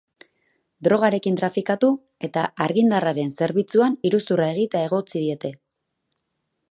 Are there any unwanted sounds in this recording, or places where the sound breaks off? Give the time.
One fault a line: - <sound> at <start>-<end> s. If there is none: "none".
none